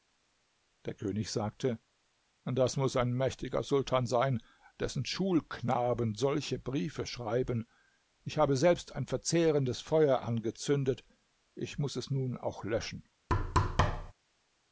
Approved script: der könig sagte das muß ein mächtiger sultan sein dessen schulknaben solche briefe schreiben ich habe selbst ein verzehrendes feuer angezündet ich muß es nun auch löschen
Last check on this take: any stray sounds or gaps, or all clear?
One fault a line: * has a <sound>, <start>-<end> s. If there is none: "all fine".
* has a thud, 13.3-14.1 s